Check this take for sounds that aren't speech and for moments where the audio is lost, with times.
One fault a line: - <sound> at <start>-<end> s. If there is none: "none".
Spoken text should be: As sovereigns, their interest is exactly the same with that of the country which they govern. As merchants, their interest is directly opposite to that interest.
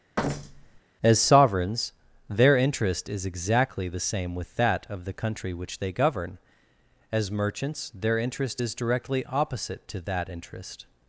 - thud at 0.2-0.8 s